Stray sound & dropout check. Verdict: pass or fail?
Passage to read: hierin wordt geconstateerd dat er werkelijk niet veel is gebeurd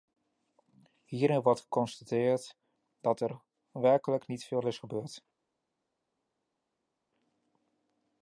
pass